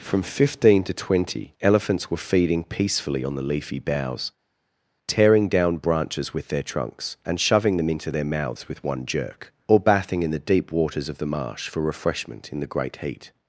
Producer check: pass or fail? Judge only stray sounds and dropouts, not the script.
pass